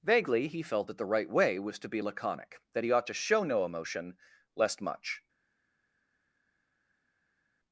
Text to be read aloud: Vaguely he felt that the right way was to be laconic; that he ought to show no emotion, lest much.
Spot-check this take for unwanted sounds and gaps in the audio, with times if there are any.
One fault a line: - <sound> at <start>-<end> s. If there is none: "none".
none